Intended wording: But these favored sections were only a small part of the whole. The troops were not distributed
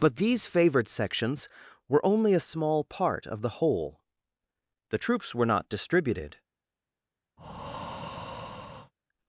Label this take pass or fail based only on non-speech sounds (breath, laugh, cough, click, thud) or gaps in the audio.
fail